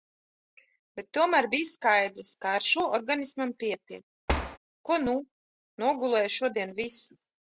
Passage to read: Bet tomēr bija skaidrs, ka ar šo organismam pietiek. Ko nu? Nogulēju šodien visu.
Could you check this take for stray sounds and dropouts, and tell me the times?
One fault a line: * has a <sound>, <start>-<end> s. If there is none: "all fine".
* has a thud, 4.3-4.6 s